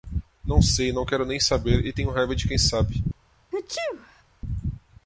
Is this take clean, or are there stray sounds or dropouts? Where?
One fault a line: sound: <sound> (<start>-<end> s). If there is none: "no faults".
sound: sneeze (3.5-4.2 s)